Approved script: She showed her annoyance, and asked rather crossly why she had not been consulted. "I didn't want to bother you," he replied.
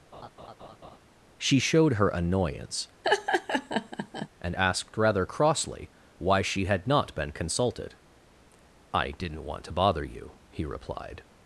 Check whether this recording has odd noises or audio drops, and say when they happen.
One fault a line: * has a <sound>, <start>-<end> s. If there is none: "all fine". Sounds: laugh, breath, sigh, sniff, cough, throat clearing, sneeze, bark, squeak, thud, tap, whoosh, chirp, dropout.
* has a laugh, 0.1-1.0 s
* has a laugh, 3.0-4.3 s